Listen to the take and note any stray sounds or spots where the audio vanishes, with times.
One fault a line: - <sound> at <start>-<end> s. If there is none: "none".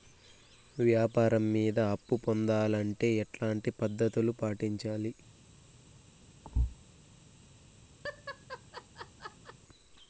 - thud at 6.4-6.8 s
- laugh at 8.0-9.6 s